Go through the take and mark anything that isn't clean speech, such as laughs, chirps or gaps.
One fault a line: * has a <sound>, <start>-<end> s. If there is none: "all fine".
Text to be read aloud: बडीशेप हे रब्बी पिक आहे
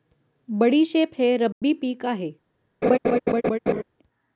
* has a dropout, 1.5-1.6 s
* has a laugh, 2.8-3.8 s